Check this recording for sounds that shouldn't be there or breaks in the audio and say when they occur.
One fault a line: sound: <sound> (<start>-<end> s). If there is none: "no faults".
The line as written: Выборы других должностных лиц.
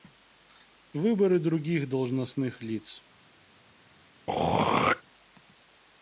sound: throat clearing (4.3-5.0 s)